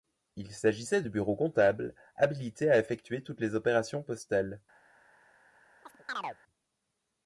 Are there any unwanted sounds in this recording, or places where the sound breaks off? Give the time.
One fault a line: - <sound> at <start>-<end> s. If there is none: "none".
- chirp at 5.8-6.4 s